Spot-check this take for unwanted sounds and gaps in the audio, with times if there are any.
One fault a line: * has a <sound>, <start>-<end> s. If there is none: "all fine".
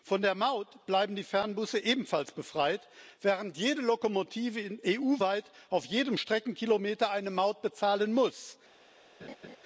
* has a laugh, 9.2-9.6 s